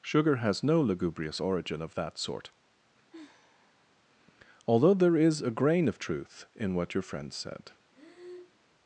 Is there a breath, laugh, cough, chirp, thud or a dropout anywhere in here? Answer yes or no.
yes